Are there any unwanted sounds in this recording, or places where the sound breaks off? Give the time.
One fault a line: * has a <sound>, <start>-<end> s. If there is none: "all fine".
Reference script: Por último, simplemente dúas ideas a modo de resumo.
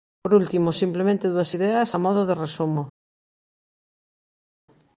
all fine